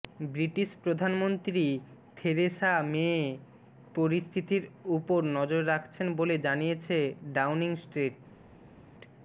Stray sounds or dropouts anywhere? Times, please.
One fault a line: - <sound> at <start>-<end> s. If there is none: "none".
none